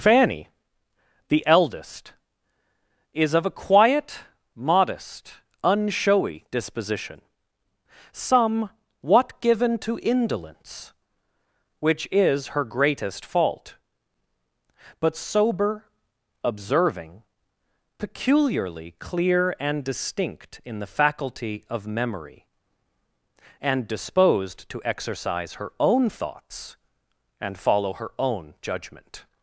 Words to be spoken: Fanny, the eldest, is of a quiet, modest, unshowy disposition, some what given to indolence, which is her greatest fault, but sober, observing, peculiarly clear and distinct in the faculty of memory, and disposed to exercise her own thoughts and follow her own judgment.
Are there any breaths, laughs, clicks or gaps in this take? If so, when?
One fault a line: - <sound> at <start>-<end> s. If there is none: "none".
none